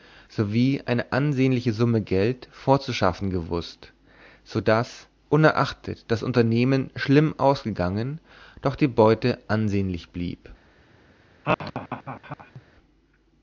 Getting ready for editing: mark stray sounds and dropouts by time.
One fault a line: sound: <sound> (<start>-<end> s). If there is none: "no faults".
sound: laugh (11.4-12.6 s)